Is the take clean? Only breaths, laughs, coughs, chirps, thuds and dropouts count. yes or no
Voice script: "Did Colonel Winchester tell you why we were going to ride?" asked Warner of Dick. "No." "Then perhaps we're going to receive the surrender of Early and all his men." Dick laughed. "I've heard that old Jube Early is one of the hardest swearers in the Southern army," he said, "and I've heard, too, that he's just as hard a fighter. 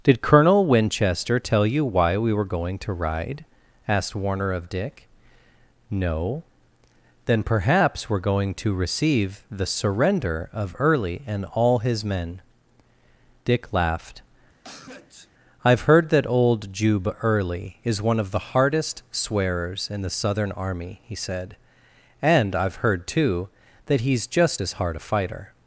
no